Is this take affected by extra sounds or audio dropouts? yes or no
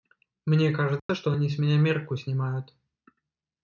yes